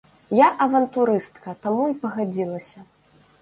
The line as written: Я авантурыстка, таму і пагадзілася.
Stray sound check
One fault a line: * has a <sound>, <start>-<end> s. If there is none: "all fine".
all fine